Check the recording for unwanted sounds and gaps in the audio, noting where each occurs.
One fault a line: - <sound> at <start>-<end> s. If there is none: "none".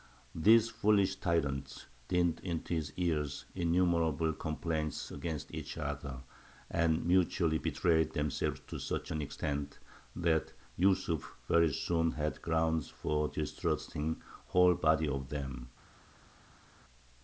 none